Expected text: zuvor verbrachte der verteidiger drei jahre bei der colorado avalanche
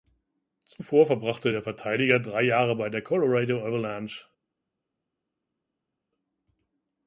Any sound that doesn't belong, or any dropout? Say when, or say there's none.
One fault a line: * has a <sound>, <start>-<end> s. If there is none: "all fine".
all fine